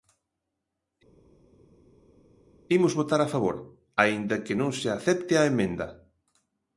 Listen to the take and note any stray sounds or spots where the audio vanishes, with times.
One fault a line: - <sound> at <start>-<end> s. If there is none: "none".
none